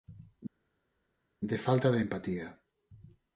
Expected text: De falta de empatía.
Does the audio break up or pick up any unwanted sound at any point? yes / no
no